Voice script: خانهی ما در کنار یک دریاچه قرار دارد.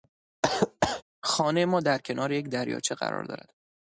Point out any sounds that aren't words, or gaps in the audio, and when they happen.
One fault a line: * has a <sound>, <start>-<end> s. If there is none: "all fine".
* has a cough, 0.4-1.0 s